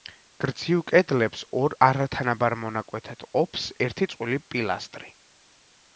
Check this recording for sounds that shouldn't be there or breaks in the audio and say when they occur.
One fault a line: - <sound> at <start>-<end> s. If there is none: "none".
none